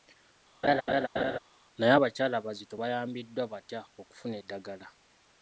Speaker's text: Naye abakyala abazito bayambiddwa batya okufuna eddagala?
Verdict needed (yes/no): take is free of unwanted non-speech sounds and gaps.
no